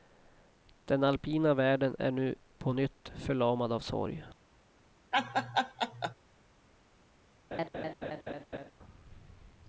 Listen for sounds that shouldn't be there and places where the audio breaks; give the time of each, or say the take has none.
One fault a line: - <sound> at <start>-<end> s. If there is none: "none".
- laugh at 5.1-6.1 s
- laugh at 7.5-8.7 s